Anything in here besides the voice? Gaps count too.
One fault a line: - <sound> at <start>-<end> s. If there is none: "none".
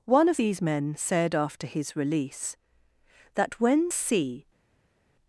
none